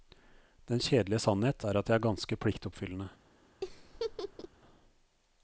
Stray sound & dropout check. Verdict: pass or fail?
fail